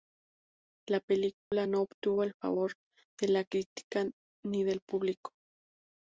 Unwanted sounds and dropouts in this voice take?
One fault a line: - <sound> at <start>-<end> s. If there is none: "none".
- dropout at 1.4-1.5 s